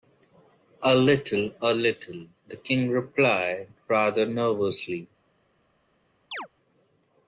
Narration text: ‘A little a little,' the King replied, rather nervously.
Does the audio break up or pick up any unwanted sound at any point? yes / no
yes